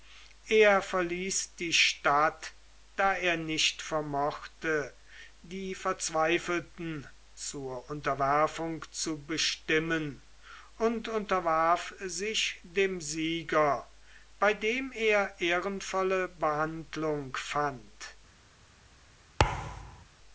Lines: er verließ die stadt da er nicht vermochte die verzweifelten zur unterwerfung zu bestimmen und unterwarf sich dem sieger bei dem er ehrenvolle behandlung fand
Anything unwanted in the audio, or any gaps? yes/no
yes